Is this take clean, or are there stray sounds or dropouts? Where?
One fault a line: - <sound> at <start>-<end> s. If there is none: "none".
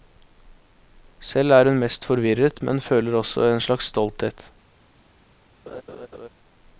- laugh at 5.7-6.3 s